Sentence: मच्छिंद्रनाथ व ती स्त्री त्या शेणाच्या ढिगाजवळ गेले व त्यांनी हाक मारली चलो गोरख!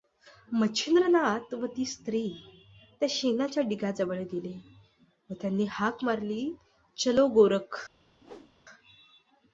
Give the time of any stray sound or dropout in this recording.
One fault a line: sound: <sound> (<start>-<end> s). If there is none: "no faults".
sound: whoosh (8.2-8.5 s)